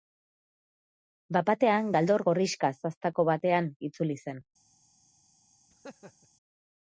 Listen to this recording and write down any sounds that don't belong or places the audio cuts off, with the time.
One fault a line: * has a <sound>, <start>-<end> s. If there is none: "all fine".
* has a laugh, 5.7-6.3 s